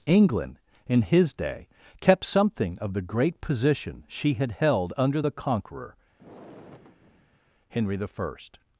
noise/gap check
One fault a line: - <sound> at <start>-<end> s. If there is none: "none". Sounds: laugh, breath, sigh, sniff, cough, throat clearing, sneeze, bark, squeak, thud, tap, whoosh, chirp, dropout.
- sigh at 6.2-7.5 s